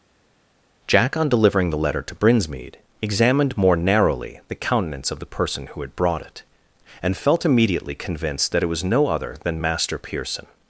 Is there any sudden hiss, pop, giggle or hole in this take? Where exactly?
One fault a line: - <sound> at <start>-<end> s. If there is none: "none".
none